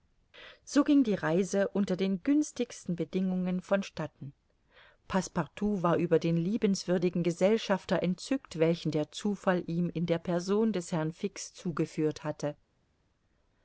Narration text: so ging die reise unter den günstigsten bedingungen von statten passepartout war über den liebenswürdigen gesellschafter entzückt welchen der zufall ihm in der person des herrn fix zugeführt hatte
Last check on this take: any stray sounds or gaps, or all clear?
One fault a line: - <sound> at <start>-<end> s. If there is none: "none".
none